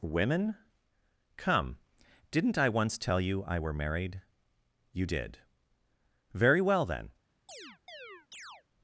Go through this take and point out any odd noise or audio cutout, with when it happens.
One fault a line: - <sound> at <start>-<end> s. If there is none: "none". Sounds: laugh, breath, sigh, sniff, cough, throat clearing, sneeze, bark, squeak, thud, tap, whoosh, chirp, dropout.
- chirp at 7.5-8.6 s